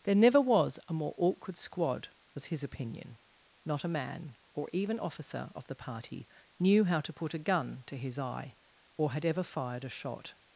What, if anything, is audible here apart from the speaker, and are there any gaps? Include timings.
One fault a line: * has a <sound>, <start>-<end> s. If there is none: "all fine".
all fine